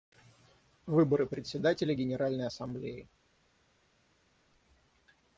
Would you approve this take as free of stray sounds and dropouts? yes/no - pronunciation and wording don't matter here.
yes